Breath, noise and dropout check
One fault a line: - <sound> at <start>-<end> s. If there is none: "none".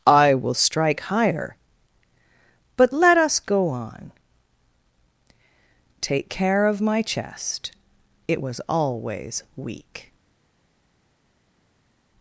none